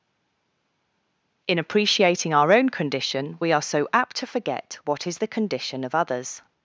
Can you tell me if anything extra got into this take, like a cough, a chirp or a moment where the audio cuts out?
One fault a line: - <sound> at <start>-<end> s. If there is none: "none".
none